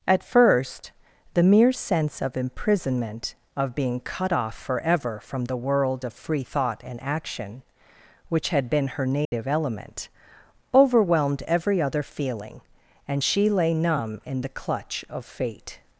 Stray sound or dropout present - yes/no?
yes